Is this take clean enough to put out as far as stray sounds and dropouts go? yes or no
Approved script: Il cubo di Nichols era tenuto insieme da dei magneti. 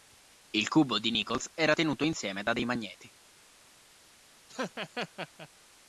no